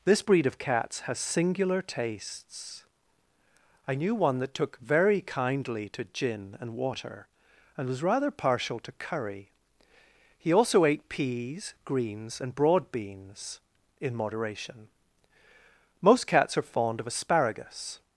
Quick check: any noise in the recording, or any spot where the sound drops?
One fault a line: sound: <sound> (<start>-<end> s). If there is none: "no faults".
no faults